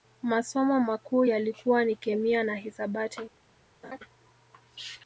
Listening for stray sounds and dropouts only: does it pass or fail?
fail